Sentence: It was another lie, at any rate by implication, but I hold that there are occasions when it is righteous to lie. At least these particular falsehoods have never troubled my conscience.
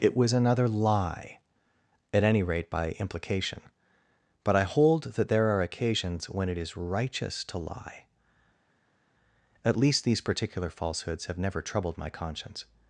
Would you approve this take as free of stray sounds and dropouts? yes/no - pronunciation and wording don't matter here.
yes